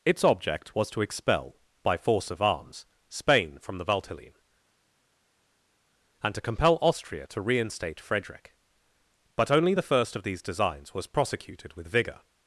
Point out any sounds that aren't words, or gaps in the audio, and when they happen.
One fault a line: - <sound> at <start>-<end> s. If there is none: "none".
none